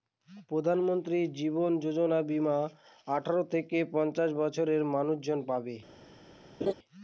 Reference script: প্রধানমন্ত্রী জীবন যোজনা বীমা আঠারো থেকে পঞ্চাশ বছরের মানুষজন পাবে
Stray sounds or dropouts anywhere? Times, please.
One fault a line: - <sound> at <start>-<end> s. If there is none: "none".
- laugh at 6.6-6.7 s